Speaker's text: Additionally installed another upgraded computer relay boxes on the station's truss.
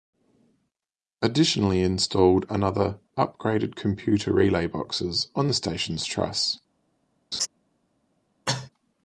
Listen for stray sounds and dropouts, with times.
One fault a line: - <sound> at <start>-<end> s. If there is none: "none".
- laugh at 7.3-7.5 s
- cough at 8.5-8.7 s